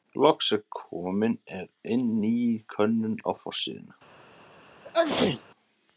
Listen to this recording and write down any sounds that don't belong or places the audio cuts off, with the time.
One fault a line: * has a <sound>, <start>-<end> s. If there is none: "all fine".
* has a sneeze, 4.8-5.4 s